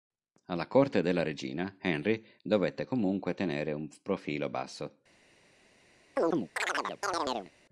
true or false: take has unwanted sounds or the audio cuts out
true